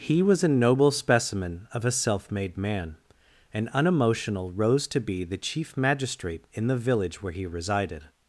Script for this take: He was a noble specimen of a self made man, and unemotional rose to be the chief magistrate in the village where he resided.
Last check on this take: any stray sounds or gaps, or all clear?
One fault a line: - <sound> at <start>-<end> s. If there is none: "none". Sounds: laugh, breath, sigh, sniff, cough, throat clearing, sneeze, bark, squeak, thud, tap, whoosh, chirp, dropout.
none